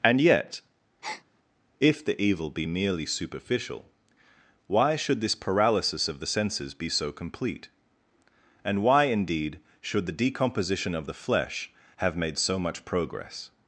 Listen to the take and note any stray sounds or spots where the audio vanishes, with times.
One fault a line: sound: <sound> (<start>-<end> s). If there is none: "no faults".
sound: breath (1.0-1.2 s)